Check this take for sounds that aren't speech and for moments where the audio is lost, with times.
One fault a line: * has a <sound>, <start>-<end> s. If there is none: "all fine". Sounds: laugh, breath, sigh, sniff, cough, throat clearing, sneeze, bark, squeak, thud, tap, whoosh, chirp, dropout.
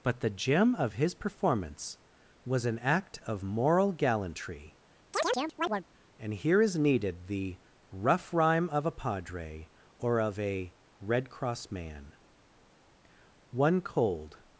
* has a chirp, 5.1-5.8 s